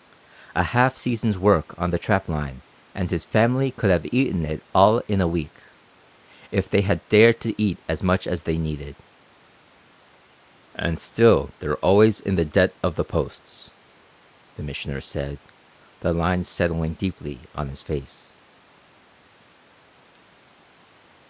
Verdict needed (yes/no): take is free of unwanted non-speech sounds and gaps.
yes